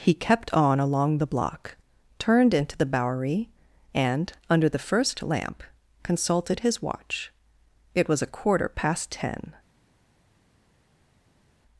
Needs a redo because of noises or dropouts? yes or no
no